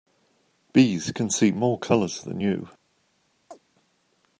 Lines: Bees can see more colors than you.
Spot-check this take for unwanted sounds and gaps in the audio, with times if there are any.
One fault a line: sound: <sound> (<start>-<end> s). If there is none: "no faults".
sound: chirp (3.5-3.6 s)